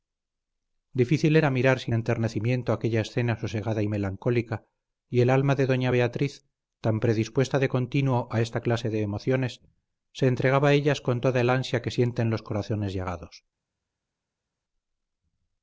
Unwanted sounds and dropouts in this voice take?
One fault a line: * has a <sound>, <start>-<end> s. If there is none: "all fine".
all fine